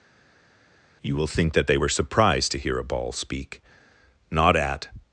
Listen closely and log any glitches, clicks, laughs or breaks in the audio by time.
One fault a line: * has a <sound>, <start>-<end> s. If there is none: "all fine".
all fine